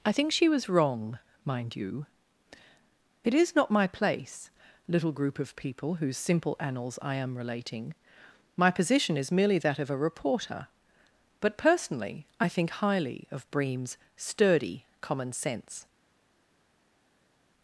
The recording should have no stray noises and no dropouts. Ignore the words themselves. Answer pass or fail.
pass